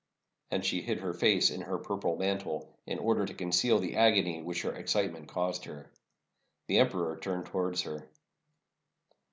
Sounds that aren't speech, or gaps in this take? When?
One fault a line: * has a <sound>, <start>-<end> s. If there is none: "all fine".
all fine